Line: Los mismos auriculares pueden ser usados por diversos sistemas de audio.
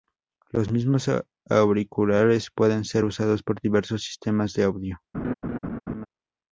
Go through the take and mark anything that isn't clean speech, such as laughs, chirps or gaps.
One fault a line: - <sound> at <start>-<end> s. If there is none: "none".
- laugh at 5.1-6.1 s